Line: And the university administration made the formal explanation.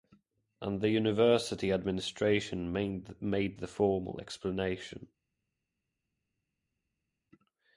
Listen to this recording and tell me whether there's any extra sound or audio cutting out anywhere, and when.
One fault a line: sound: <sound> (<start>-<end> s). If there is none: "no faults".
no faults